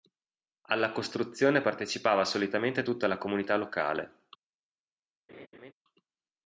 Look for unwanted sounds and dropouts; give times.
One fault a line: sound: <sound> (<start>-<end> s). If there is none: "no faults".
sound: laugh (5.3-5.7 s)